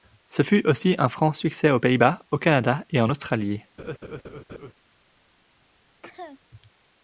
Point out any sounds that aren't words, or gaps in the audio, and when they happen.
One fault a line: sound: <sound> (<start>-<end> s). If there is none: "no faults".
sound: laugh (3.8-4.7 s)
sound: cough (6.0-6.4 s)